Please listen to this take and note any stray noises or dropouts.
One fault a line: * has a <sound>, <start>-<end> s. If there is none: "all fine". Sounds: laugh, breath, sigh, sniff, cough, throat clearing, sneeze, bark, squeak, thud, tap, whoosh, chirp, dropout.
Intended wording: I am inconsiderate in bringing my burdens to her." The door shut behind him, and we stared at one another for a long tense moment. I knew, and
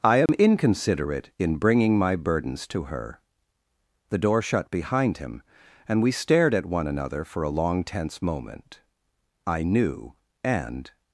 * has a dropout, 0.3-0.3 s